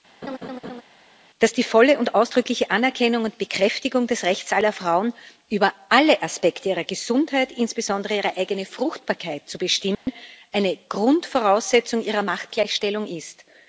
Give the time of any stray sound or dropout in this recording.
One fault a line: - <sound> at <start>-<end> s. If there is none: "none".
- laugh at 0.2-0.8 s
- dropout at 9.9-10.1 s